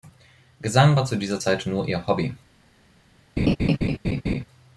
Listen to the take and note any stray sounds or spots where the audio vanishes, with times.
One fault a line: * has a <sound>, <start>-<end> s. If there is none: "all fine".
* has a laugh, 3.4-4.4 s